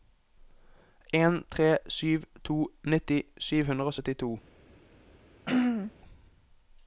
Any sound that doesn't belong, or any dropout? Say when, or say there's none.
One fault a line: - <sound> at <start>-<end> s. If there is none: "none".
- throat clearing at 5.4-5.9 s